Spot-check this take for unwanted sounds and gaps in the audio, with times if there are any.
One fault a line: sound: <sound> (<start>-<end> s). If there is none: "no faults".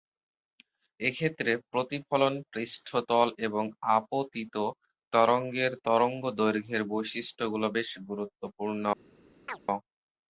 sound: chirp (9.5-9.6 s)